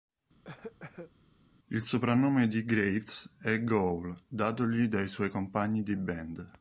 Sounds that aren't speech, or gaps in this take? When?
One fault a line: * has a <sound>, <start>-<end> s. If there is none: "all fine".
* has a cough, 0.4-1.1 s